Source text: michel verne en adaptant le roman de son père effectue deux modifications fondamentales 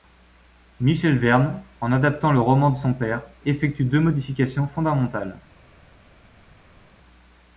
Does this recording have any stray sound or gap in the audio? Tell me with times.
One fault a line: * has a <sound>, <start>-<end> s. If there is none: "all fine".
all fine